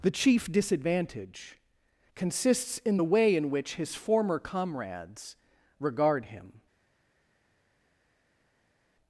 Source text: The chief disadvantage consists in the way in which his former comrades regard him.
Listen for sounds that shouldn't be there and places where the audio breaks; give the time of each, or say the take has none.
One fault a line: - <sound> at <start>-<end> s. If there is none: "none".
none